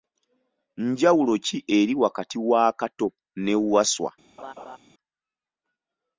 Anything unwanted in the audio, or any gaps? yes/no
yes